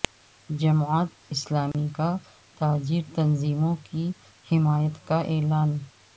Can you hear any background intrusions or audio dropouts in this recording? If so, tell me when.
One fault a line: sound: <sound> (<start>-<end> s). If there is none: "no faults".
sound: dropout (1.7-1.7 s)